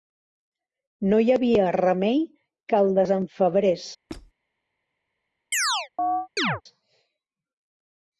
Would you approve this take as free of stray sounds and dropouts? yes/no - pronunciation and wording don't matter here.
no